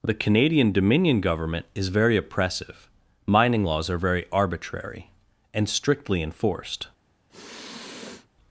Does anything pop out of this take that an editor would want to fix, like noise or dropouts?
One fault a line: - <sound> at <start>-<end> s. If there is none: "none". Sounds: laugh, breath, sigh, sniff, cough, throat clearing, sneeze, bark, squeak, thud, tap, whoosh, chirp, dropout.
- sniff at 7.3-8.3 s